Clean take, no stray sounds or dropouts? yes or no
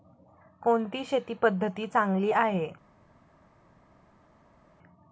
yes